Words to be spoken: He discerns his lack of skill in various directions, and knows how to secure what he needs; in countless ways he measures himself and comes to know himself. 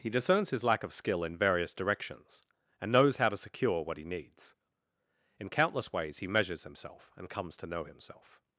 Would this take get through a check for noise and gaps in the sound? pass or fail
pass